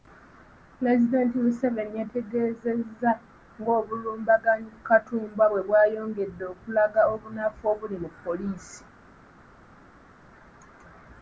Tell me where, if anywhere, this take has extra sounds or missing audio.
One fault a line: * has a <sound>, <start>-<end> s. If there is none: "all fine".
all fine